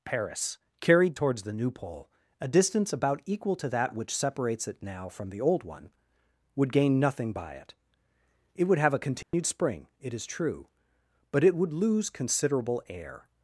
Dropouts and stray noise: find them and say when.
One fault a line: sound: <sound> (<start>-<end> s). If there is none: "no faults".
sound: dropout (9.2-9.3 s)